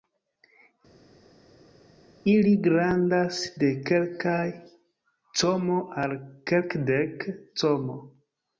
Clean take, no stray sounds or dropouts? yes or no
yes